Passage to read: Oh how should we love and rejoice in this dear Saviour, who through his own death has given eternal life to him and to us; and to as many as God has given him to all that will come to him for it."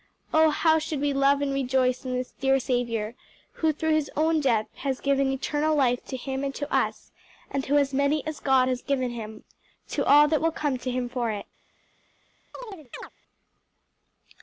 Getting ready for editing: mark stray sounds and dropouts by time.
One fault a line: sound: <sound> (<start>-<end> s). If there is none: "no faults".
sound: chirp (12.5-13.1 s)